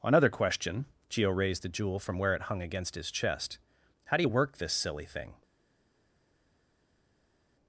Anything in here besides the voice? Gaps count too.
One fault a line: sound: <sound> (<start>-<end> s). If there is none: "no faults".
no faults